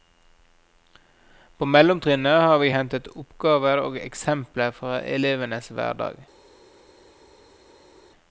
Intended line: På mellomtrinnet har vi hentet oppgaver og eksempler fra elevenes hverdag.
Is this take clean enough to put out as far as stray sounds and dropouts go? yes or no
yes